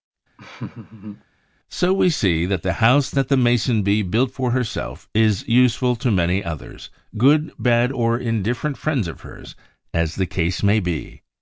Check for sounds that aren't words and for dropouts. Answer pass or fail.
fail